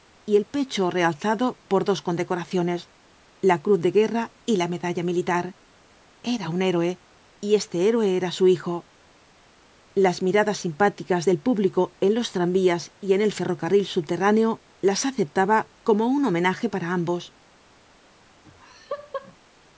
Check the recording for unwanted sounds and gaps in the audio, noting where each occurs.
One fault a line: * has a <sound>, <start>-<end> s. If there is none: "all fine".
* has a laugh, 18.4-19.4 s